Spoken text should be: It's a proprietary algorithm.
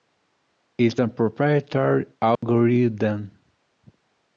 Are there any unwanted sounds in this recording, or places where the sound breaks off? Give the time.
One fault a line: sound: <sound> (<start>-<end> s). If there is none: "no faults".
sound: dropout (2.3-2.4 s)